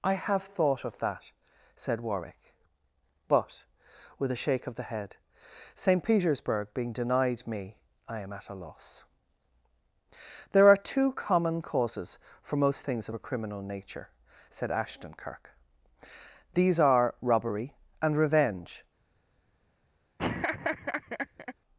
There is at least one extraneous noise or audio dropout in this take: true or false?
true